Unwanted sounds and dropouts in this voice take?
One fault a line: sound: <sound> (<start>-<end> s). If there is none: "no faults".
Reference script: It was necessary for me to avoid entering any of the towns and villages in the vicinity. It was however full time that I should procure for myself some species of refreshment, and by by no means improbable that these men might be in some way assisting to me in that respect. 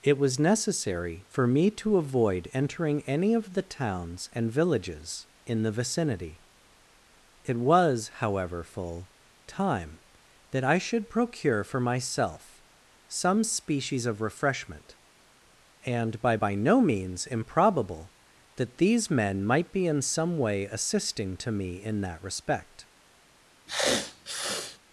sound: sniff (23.7-24.8 s)